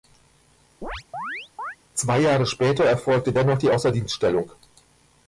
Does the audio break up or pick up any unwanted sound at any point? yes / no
yes